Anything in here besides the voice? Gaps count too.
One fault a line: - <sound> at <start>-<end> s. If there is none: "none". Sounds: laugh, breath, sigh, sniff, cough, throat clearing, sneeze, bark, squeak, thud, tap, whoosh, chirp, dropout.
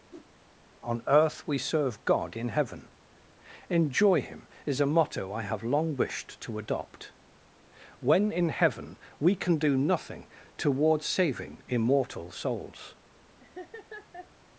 - whoosh at 0.1-0.3 s
- laugh at 13.4-14.3 s